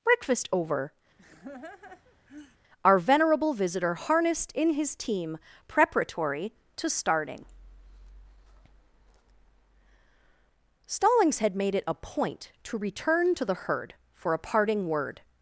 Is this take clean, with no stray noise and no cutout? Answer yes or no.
no